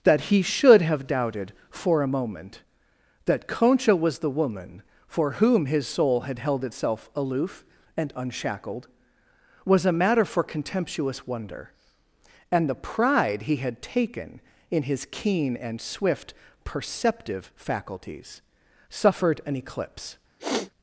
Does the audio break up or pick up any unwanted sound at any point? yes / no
yes